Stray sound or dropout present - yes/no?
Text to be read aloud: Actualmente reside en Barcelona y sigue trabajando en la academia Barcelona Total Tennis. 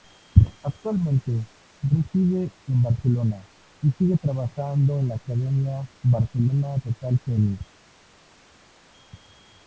no